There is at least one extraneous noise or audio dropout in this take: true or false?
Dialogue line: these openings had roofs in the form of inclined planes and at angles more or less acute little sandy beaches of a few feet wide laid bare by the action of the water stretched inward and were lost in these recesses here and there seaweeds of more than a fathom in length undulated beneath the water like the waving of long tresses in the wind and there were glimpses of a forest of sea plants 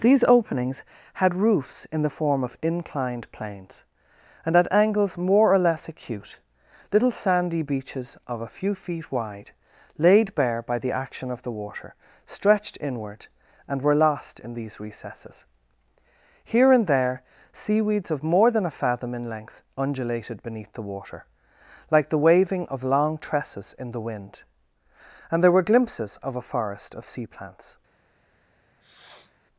true